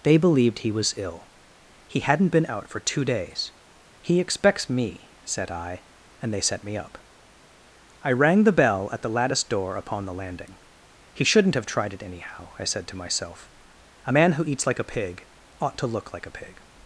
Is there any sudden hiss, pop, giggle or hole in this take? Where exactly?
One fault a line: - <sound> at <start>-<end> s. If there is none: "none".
none